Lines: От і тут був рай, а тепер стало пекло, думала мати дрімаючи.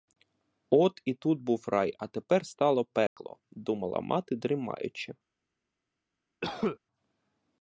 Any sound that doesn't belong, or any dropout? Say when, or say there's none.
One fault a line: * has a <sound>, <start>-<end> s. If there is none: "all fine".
* has a dropout, 3.1-3.2 s
* has a cough, 6.4-6.8 s